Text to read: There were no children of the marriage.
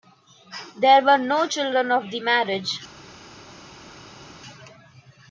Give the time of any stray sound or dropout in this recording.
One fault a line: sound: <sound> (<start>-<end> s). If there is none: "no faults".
no faults